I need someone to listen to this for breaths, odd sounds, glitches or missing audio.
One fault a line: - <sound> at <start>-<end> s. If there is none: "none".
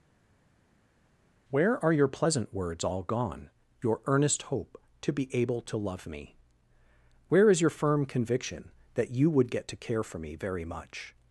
none